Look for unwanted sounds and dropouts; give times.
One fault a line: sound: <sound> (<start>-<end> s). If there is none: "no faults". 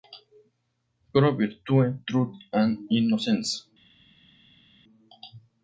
no faults